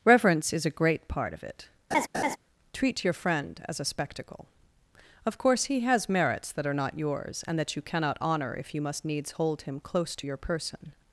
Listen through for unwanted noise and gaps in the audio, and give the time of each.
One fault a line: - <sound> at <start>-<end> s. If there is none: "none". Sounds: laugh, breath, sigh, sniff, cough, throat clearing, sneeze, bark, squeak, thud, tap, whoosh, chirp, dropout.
- laugh at 1.9-2.4 s